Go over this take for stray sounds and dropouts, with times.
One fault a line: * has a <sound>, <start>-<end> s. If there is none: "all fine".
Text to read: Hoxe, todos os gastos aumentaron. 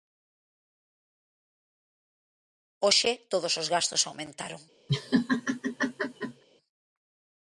* has a laugh, 4.9-6.4 s